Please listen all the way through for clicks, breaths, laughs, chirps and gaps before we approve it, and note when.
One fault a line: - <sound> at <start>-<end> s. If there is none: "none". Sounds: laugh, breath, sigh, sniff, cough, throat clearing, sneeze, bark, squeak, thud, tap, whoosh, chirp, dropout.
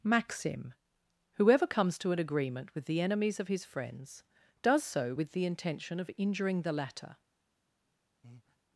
- breath at 8.2-8.6 s